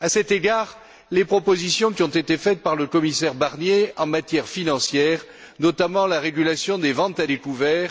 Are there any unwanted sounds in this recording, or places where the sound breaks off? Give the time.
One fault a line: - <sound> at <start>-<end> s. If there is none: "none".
none